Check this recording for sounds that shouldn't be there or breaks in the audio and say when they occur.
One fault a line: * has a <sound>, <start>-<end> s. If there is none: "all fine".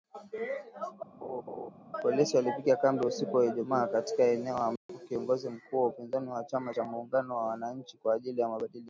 * has a laugh, 1.2-1.7 s
* has a dropout, 4.8-4.9 s